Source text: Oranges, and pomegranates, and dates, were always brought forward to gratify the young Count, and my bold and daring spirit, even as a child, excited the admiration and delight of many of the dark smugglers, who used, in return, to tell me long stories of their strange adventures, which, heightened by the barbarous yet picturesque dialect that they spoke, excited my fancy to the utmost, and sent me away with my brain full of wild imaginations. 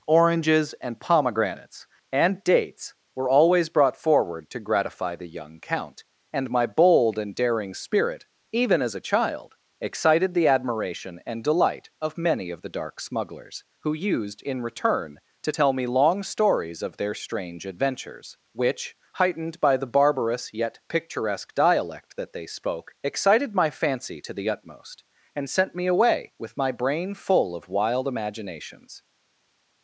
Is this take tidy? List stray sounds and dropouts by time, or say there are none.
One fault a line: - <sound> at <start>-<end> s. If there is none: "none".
none